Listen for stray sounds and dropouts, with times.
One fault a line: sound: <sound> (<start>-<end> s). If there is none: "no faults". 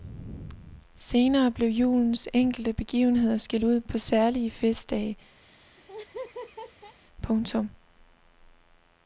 sound: laugh (5.4-7.0 s)